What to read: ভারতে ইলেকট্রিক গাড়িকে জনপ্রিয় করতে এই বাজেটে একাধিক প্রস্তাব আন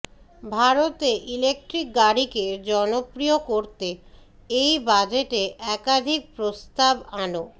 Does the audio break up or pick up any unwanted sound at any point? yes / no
no